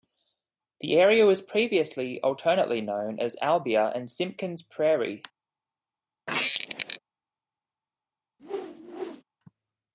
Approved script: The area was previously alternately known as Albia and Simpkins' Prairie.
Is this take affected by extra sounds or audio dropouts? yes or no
yes